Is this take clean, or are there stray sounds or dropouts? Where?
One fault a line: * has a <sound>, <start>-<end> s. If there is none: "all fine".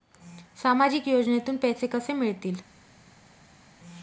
all fine